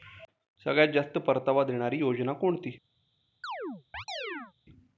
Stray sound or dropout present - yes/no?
yes